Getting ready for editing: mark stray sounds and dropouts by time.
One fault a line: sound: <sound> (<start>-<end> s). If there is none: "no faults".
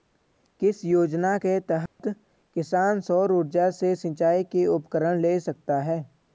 sound: dropout (1.9-2.0 s)